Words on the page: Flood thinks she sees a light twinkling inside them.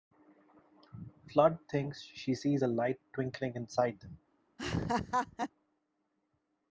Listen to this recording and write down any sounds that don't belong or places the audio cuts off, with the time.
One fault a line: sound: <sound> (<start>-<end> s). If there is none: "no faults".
sound: laugh (4.6-5.5 s)